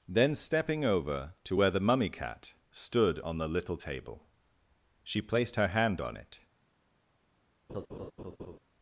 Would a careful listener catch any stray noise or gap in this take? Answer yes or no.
yes